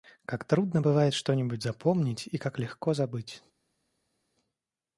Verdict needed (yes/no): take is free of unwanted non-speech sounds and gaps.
yes